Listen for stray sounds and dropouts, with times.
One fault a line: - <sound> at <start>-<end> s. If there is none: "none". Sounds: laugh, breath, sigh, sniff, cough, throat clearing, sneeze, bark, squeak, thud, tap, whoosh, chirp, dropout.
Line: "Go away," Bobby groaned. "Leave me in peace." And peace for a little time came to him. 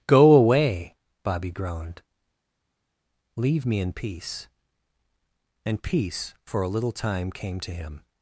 none